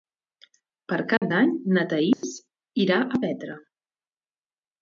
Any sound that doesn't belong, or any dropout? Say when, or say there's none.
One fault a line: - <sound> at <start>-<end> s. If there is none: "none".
- dropout at 1.2-1.2 s
- dropout at 2.1-2.2 s